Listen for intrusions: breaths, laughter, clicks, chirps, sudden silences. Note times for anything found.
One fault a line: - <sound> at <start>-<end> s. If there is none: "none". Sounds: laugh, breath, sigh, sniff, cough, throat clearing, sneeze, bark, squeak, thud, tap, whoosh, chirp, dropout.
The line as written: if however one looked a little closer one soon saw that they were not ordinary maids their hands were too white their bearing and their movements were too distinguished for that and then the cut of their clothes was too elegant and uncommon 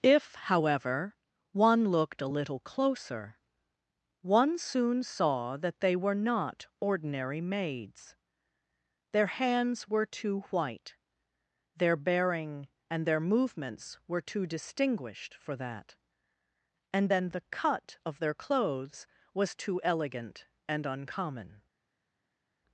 none